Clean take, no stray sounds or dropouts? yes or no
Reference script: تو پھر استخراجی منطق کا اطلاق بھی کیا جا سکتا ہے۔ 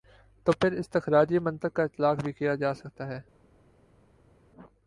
yes